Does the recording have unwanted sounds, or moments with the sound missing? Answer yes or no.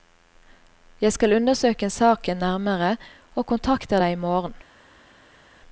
no